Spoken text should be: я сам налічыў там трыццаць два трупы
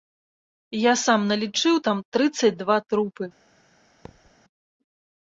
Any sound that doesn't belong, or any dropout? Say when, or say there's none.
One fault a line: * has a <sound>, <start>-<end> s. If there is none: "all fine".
* has a thud, 4.0-4.3 s